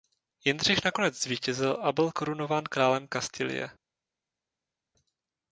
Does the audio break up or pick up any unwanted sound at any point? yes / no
no